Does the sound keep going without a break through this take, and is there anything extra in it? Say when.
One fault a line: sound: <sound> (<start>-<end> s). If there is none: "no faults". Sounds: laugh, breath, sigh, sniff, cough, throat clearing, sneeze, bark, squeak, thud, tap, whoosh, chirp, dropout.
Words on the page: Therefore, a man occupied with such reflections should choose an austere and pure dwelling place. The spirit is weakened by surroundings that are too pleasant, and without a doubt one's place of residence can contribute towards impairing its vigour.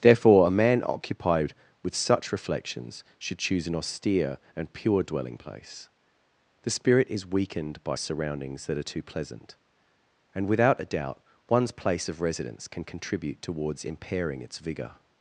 no faults